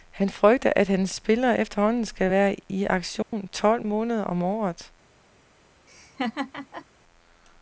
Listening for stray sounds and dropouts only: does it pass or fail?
fail